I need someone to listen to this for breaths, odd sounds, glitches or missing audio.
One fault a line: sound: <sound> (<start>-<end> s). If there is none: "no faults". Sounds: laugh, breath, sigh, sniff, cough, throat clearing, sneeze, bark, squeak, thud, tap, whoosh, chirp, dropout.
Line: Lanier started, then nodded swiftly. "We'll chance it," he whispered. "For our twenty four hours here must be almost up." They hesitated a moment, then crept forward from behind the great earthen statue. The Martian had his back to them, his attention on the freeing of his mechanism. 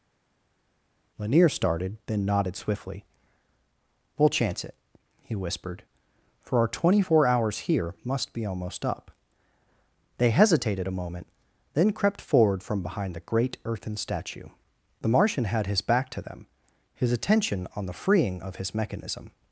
no faults